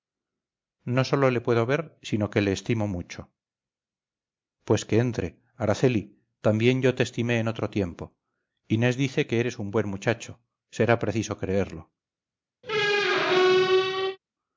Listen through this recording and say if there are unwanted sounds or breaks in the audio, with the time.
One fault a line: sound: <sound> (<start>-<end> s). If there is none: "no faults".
sound: squeak (12.6-14.2 s)